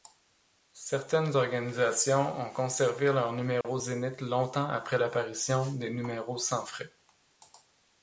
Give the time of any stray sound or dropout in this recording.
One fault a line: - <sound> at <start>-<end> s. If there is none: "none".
- dropout at 3.6-3.6 s